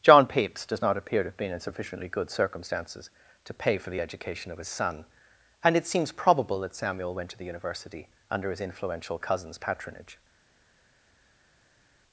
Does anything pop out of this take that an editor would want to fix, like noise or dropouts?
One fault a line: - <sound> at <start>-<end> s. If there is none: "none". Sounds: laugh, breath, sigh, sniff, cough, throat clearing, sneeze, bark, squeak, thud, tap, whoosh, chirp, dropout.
none